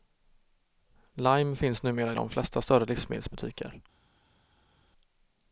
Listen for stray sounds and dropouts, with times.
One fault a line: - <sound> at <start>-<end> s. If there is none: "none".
none